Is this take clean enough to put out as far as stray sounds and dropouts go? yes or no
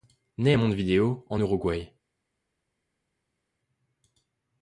yes